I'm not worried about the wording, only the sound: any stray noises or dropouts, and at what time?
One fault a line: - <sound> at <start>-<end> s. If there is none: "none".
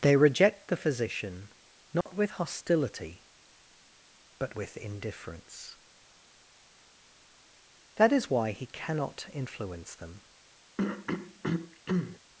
- dropout at 2.0-2.1 s
- throat clearing at 10.8-12.2 s